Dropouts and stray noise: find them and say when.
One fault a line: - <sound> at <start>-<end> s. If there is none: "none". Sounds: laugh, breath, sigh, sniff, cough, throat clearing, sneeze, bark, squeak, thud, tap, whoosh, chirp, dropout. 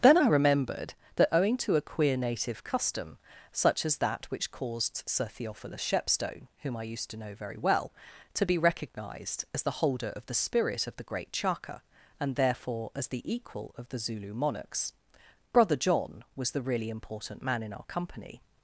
none